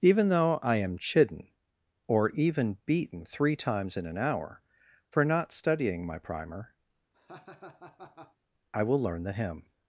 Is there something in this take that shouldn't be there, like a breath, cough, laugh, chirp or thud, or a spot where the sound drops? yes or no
yes